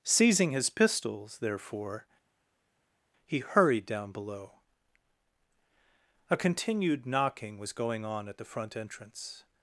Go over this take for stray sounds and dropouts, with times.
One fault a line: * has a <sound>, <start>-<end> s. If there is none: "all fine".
all fine